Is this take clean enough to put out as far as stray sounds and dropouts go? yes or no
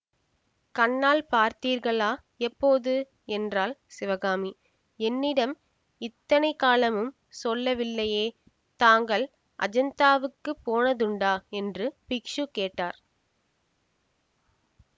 yes